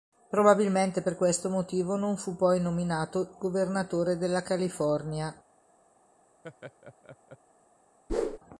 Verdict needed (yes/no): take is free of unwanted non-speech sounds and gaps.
no